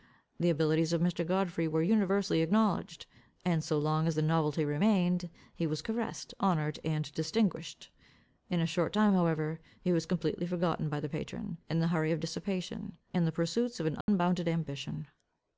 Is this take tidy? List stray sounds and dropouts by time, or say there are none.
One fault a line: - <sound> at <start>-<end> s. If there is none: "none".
- dropout at 14.0-14.1 s